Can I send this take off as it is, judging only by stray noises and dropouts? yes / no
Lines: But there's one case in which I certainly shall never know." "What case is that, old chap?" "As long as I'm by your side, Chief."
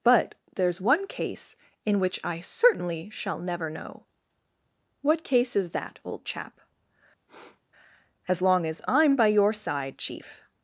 no